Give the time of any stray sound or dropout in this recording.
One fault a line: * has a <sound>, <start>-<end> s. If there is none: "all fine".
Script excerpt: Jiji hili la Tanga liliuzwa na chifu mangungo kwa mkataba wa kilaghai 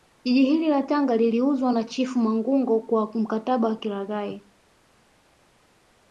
all fine